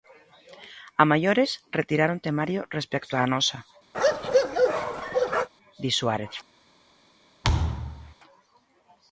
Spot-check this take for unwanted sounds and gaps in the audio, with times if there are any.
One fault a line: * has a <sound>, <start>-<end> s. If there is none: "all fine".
* has a bark, 3.9-5.5 s
* has a thud, 7.4-8.1 s